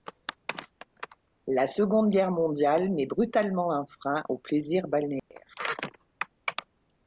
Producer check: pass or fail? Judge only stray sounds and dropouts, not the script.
fail